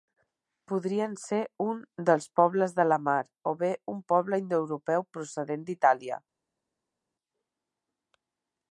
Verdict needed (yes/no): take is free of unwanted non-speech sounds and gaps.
yes